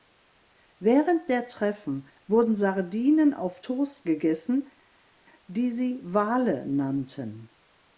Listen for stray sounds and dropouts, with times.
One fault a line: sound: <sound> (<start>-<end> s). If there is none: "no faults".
no faults